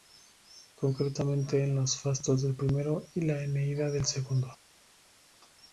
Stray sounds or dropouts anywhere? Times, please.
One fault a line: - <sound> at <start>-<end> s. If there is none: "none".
none